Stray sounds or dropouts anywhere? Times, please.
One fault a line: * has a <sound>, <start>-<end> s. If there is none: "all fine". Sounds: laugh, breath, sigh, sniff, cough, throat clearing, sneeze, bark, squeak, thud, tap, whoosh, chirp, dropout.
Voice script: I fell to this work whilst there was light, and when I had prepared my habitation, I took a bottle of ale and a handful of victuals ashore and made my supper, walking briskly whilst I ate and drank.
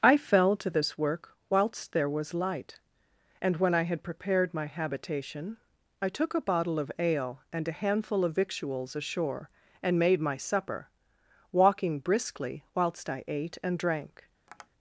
* has a tap, 14.5-14.7 s